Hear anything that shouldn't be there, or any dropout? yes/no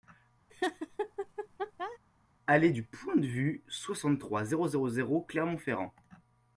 yes